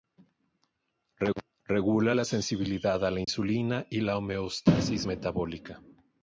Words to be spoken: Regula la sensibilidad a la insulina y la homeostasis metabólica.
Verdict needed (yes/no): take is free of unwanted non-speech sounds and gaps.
no